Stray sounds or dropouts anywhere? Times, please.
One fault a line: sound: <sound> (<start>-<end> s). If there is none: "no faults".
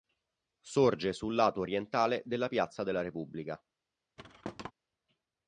sound: thud (4.2-4.7 s)